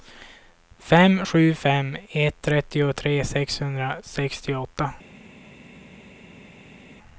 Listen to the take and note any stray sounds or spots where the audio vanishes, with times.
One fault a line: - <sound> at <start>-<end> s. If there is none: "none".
none